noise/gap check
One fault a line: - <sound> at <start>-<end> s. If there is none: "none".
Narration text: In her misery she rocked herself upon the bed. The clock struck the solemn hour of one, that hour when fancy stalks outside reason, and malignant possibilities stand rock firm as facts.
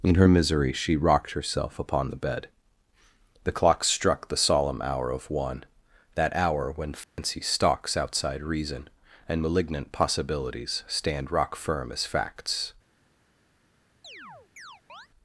- dropout at 7.0-7.2 s
- chirp at 14.0-15.1 s